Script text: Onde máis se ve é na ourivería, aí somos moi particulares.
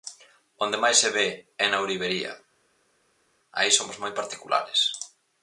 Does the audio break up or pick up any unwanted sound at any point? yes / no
no